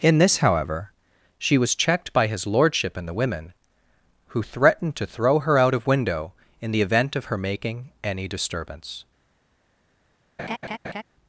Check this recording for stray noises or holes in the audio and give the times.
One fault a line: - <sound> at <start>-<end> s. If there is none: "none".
- laugh at 10.4-11.0 s